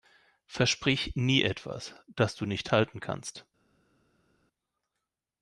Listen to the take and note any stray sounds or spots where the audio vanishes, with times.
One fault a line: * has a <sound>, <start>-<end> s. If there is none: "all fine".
all fine